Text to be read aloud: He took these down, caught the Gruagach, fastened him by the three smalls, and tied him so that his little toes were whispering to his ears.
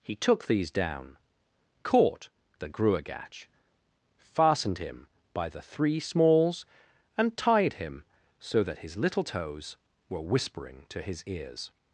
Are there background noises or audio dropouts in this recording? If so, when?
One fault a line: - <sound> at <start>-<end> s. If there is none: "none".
none